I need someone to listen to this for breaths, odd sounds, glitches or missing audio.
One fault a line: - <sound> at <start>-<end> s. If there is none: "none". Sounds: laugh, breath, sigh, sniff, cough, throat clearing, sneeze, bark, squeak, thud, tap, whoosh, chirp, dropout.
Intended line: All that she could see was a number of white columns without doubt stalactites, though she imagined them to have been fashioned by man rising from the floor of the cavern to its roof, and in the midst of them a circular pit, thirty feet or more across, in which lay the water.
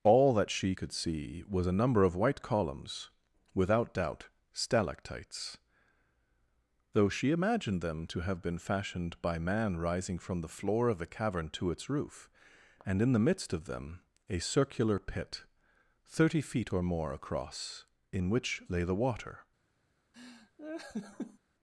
- laugh at 20.1-21.4 s